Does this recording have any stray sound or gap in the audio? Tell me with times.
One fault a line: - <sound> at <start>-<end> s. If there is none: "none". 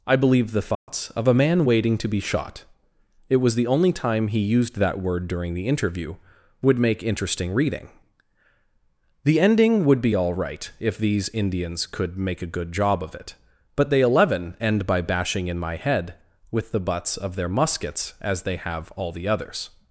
- dropout at 0.7-0.9 s